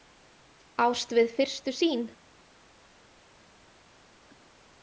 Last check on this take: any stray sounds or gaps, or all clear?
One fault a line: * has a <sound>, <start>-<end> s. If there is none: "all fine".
all fine